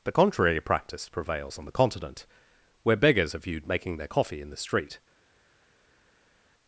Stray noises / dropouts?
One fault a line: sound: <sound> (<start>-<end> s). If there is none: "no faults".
no faults